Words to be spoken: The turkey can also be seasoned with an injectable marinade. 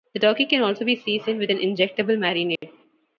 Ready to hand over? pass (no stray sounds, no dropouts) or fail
fail